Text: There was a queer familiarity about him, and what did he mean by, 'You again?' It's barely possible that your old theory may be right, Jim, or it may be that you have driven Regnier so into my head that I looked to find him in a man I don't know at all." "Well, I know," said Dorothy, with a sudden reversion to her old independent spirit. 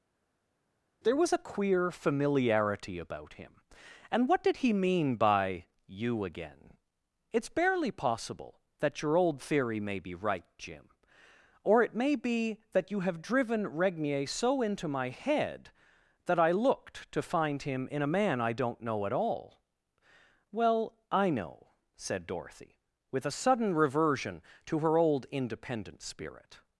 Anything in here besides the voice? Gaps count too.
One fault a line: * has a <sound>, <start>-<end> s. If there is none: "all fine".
all fine